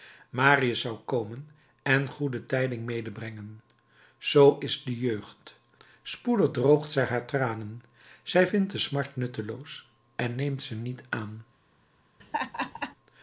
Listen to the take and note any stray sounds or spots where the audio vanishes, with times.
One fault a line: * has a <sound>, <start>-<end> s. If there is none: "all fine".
* has a laugh, 12.2-12.9 s